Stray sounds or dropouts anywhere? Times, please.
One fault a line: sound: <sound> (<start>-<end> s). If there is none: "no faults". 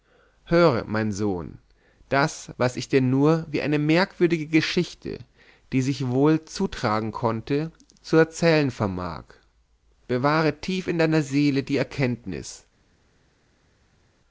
no faults